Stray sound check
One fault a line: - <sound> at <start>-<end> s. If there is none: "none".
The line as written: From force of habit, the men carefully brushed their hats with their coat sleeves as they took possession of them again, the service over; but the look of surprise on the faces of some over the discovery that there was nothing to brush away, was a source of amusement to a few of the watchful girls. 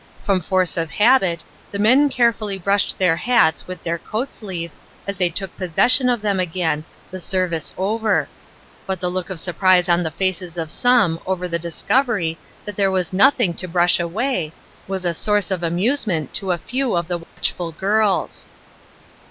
- dropout at 17.2-17.4 s